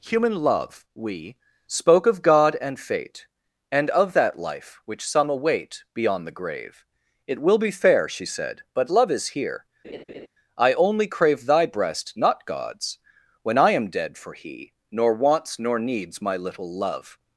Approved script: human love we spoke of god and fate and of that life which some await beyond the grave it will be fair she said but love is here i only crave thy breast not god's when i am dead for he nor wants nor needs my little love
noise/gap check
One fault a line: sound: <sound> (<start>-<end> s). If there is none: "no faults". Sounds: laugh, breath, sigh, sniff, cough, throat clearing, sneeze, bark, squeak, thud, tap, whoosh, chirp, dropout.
sound: laugh (9.8-10.3 s)